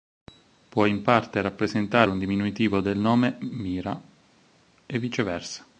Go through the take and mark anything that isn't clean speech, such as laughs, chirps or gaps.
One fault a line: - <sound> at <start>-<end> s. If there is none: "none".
none